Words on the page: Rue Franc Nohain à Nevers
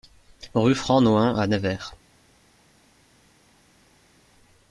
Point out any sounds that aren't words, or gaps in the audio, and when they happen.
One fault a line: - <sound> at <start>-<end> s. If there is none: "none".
none